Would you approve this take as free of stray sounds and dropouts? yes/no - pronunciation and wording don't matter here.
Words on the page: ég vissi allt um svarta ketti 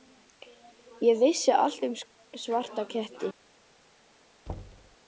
no